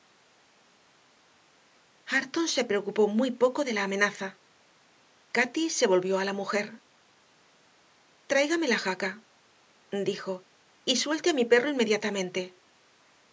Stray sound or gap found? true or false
false